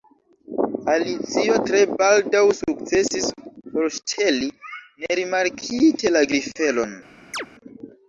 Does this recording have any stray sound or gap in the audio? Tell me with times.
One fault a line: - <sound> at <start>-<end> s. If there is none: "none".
- chirp at 7.3-7.5 s